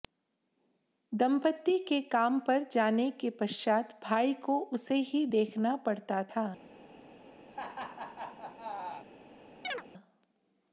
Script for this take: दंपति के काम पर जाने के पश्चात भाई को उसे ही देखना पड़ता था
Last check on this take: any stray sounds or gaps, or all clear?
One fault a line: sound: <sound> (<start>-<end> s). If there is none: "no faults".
sound: laugh (7.5-9.1 s)
sound: chirp (9.6-9.8 s)